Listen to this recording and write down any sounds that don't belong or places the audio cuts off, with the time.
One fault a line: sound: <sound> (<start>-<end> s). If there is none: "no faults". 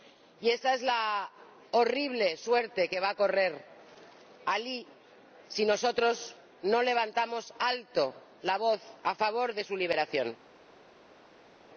no faults